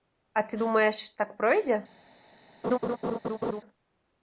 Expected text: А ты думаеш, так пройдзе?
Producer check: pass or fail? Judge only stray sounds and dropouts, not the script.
fail